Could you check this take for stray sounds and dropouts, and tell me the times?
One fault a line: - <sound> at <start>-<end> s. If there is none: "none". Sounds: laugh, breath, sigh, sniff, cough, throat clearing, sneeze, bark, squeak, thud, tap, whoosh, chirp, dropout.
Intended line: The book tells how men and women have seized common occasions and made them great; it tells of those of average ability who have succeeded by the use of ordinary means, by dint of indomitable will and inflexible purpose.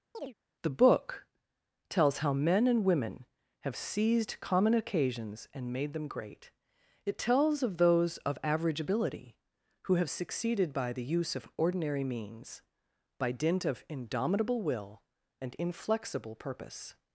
- chirp at 0.1-0.3 s